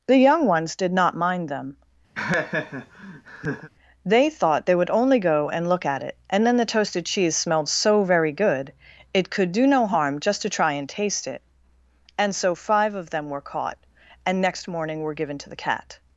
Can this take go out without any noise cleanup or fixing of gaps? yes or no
no